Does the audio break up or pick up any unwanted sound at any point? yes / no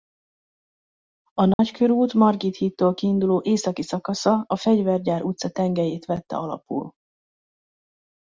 yes